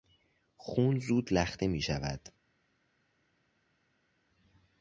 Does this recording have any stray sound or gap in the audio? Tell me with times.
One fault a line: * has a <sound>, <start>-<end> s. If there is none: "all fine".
all fine